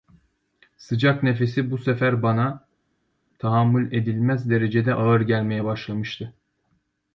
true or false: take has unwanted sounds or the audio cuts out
false